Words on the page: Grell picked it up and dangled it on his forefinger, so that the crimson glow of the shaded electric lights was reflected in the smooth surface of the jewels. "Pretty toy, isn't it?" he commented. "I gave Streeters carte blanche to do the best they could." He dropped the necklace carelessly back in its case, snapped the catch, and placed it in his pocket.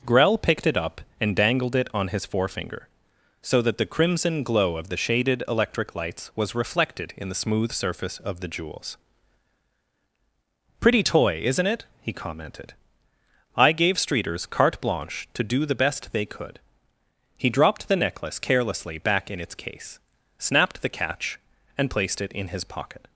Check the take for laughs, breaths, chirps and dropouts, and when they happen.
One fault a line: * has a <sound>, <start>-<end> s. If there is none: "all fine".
all fine